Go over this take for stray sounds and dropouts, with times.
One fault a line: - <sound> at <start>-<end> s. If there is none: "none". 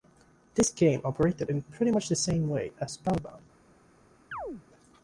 - chirp at 4.3-4.6 s